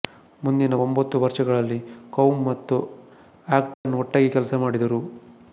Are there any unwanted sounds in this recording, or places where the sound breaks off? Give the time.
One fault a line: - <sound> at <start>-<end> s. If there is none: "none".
- dropout at 3.7-3.8 s